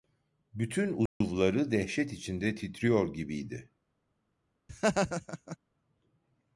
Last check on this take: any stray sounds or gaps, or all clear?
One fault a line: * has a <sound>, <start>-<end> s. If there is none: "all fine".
* has a dropout, 1.1-1.2 s
* has a laugh, 4.7-5.6 s